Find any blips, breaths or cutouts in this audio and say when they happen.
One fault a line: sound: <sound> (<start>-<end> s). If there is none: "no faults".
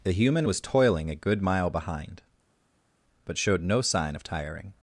no faults